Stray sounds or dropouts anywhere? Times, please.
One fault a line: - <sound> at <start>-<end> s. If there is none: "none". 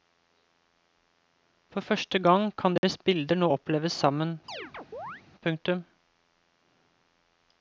- dropout at 2.8-2.8 s
- chirp at 4.5-5.2 s